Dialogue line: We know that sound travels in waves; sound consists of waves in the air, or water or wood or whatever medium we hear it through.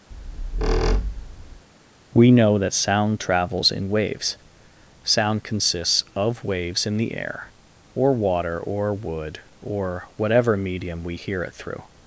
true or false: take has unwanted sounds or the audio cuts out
true